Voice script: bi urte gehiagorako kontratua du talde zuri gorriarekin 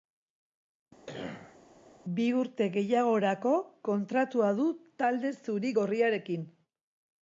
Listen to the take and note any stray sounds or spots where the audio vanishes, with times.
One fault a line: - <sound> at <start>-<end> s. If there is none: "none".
- cough at 1.1-1.6 s